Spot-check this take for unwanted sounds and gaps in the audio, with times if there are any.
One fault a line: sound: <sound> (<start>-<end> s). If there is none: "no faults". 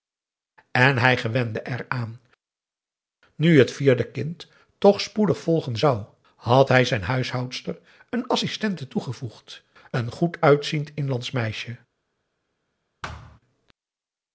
sound: thud (13.0-13.4 s)